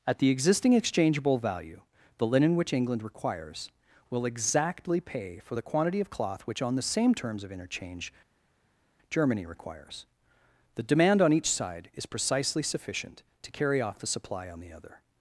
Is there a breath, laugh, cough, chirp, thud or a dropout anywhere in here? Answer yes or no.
no